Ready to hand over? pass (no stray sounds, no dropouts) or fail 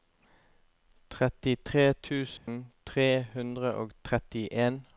fail